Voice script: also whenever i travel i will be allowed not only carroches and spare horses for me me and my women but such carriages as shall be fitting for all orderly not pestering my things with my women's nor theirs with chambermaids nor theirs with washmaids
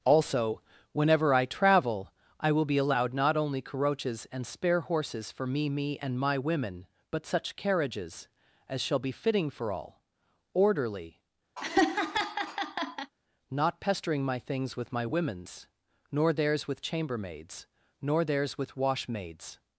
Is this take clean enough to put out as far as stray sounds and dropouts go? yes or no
no